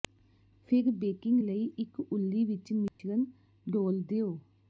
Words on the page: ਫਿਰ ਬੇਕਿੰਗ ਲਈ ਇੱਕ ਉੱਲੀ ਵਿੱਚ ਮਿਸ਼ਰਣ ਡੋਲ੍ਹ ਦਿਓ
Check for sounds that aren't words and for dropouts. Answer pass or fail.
fail